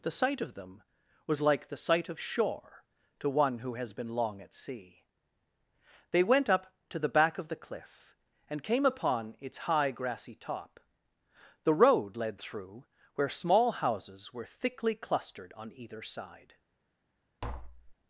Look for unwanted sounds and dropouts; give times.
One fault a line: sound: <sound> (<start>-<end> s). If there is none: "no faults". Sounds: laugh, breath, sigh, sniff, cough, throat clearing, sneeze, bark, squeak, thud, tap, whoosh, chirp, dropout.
sound: tap (17.4-18.0 s)